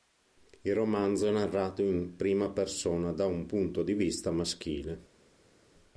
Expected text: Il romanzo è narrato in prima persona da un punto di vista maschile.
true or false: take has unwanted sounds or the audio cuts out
false